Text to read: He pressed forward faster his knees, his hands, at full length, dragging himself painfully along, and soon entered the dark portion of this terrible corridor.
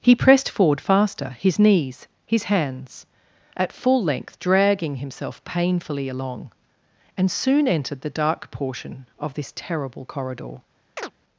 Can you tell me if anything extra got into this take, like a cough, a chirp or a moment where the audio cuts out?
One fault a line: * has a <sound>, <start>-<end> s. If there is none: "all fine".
* has a chirp, 11.0-11.1 s